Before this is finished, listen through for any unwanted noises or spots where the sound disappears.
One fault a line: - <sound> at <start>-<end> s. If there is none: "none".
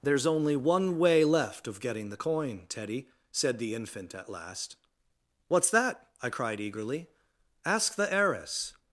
none